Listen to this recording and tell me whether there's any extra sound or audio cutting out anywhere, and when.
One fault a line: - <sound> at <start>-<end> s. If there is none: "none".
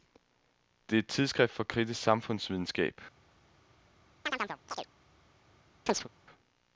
- chirp at 4.3-4.9 s
- chirp at 5.9-6.1 s